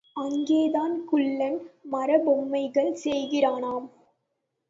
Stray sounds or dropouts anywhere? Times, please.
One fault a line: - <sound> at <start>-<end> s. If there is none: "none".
none